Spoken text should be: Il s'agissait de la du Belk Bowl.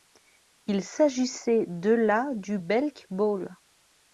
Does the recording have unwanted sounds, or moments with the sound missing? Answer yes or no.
no